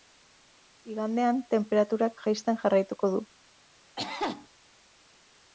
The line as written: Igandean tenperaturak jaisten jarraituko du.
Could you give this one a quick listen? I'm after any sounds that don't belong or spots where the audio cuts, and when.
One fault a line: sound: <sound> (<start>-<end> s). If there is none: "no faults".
sound: cough (4.0-4.5 s)